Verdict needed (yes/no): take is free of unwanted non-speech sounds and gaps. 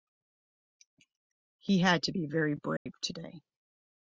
no